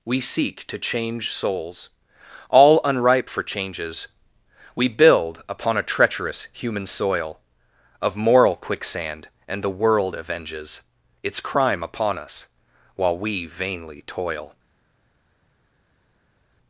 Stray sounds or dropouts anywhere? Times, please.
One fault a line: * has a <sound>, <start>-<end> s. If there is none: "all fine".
all fine